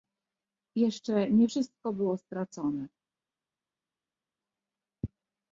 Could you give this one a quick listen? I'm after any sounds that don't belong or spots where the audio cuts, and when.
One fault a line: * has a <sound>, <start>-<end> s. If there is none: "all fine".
all fine